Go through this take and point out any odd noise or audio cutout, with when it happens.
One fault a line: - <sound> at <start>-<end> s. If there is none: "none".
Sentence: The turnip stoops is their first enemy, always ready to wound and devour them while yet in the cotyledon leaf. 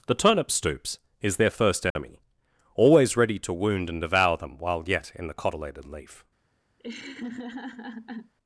- dropout at 1.9-2.0 s
- laugh at 6.8-8.3 s